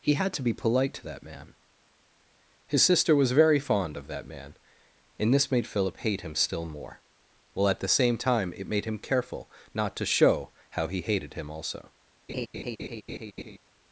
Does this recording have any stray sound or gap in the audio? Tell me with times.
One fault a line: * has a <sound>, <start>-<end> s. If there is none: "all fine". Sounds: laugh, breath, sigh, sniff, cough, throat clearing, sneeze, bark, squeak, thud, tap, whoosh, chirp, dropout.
* has a laugh, 12.3-13.6 s